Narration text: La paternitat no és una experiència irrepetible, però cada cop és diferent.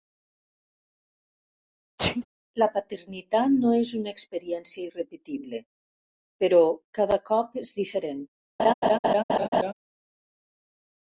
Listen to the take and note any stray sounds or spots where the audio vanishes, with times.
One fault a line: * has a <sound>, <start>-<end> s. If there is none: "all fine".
* has a sneeze, 2.0-2.3 s
* has a laugh, 8.6-9.7 s